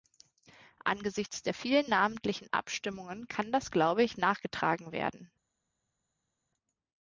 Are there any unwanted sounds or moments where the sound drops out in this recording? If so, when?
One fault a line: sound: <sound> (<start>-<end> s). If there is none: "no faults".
no faults